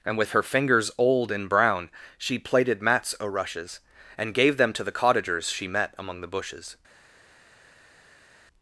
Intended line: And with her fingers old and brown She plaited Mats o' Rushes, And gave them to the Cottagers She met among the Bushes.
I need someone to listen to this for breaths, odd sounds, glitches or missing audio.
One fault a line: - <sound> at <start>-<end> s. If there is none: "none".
none